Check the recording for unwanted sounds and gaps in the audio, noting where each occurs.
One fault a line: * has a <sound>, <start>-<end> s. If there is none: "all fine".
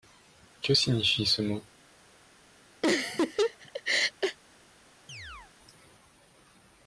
* has a laugh, 2.8-4.4 s
* has a chirp, 5.1-5.5 s